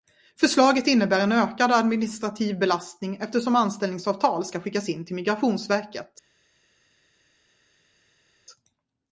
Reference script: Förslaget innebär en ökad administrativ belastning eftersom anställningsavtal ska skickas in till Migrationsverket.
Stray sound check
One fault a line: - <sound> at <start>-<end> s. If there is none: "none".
none